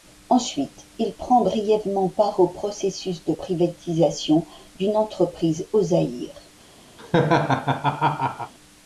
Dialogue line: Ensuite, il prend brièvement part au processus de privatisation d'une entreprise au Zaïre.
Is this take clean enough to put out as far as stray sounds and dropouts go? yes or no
no